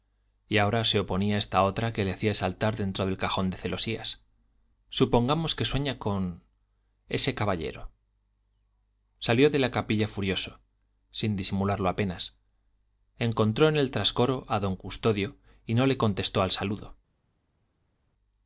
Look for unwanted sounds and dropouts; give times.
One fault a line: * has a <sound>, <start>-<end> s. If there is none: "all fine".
all fine